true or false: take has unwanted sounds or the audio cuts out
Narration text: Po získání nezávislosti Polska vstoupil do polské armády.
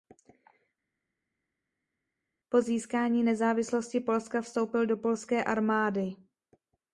false